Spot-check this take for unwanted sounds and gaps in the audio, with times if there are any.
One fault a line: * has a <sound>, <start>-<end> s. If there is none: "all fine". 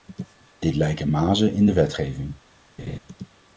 * has a laugh, 2.8-3.0 s